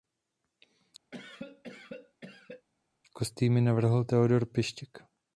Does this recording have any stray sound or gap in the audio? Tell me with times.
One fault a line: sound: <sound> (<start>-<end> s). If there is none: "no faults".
sound: cough (1.1-2.7 s)